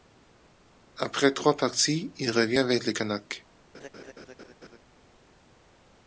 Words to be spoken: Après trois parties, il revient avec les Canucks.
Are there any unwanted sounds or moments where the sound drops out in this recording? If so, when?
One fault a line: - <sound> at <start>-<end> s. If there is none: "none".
- laugh at 3.7-4.8 s